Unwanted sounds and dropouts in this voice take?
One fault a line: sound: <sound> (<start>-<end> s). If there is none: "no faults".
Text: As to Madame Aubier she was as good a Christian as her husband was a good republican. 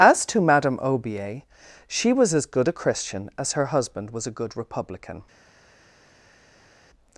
no faults